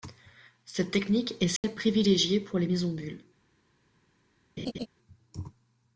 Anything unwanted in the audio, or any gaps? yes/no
yes